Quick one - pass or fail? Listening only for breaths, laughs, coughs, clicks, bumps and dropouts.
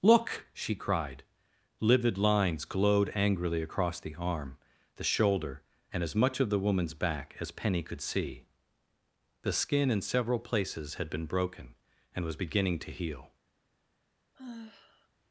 fail